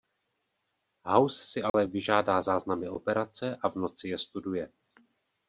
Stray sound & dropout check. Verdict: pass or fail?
fail